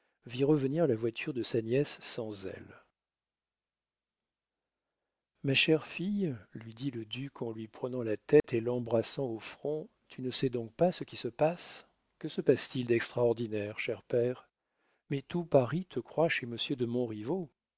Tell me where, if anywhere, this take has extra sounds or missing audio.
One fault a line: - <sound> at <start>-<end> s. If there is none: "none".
- dropout at 8.4-8.4 s